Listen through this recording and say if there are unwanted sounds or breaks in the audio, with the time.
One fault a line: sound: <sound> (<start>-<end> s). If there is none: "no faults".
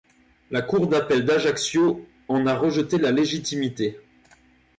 no faults